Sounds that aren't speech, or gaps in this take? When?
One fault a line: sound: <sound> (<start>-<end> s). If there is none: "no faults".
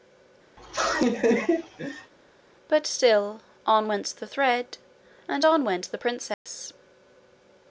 sound: laugh (0.6-2.1 s)
sound: dropout (6.3-6.5 s)